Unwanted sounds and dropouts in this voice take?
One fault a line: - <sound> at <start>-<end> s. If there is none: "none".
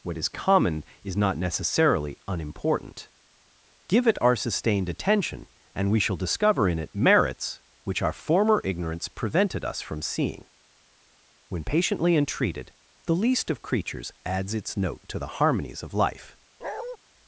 - bark at 16.6-17.0 s